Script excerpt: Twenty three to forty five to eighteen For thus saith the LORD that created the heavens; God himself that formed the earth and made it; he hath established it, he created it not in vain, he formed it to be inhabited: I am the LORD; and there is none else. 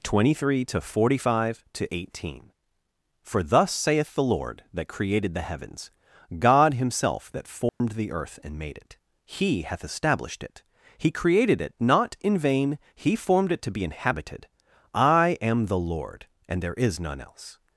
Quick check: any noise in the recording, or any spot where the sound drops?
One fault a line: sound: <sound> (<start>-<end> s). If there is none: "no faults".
sound: dropout (7.7-7.8 s)